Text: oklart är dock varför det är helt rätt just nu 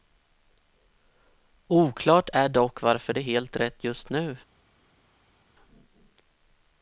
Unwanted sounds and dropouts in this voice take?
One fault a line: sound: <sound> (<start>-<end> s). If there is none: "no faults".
no faults